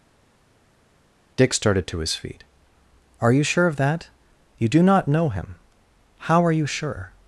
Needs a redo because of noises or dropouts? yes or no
no